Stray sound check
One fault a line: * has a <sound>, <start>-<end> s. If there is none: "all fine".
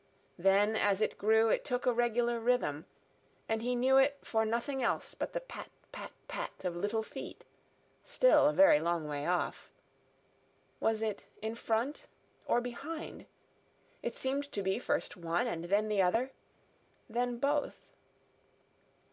all fine